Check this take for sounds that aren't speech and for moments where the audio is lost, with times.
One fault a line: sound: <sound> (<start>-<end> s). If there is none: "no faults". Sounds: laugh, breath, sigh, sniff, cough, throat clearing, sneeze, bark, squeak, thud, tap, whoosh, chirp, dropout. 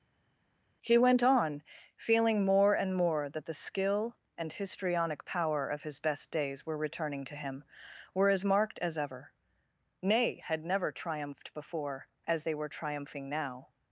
no faults